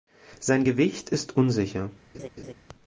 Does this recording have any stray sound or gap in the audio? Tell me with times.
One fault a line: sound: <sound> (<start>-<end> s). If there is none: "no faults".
sound: laugh (2.1-2.5 s)